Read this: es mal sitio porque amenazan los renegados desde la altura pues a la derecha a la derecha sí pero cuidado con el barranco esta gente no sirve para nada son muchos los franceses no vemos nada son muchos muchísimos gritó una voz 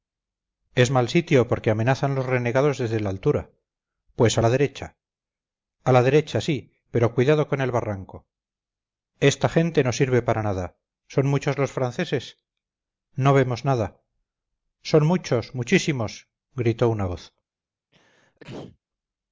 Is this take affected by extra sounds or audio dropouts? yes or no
yes